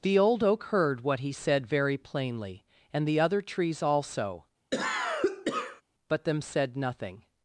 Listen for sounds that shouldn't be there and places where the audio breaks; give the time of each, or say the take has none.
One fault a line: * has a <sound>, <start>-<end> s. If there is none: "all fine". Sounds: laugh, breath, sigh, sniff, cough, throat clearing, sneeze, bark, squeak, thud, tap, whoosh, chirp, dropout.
* has a cough, 4.7-5.8 s